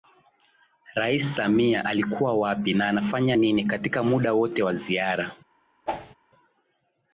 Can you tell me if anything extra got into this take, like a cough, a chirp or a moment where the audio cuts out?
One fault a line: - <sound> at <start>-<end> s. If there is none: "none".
- whoosh at 5.9-6.2 s